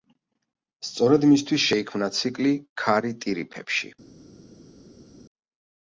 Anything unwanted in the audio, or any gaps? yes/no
no